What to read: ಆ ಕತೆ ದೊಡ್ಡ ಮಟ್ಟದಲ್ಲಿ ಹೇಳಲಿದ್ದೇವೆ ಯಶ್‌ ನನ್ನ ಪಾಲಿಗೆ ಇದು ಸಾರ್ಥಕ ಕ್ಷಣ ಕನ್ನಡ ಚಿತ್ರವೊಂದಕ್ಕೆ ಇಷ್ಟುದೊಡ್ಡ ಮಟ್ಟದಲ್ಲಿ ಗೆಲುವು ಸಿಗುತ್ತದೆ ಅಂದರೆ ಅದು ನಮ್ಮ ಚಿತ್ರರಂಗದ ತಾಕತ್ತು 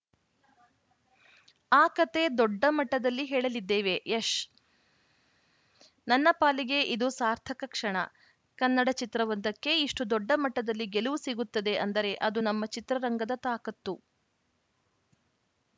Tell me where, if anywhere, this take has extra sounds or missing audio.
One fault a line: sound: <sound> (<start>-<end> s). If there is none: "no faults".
no faults